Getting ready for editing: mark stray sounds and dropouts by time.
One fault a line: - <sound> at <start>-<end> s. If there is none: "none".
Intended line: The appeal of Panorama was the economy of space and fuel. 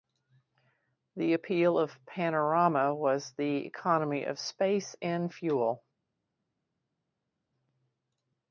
none